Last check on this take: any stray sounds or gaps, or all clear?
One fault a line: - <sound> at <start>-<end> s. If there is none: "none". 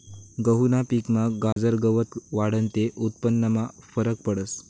- dropout at 1.5-1.6 s